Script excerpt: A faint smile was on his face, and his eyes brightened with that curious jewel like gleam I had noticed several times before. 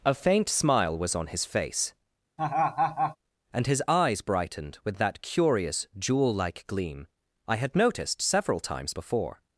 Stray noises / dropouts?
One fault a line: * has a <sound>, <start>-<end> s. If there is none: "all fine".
* has a laugh, 2.4-3.2 s